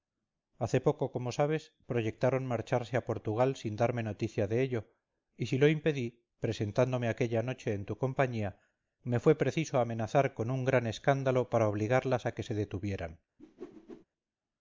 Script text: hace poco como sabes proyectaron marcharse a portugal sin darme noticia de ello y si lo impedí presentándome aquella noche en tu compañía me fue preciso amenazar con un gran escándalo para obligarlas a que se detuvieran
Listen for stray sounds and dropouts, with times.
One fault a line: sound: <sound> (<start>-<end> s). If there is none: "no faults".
sound: whoosh (13.4-14.1 s)